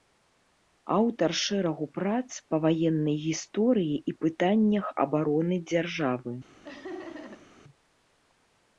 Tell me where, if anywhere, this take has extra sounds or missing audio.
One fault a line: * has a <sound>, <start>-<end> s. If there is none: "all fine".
* has a laugh, 6.6-7.5 s